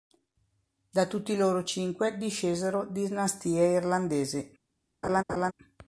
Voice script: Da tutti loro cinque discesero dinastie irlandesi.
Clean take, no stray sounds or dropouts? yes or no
no